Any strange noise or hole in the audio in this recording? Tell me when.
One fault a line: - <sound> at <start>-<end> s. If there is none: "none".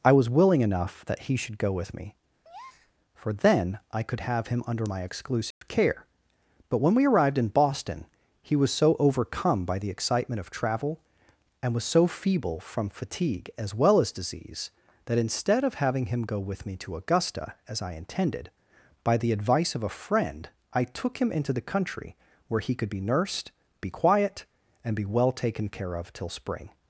- breath at 2.4-2.9 s
- dropout at 5.5-5.6 s